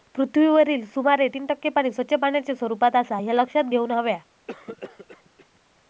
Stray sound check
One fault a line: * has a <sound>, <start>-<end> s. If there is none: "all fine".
* has a cough, 4.5-5.6 s